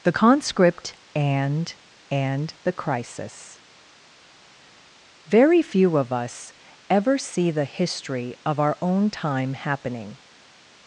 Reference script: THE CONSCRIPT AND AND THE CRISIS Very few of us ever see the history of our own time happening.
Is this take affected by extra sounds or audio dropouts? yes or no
no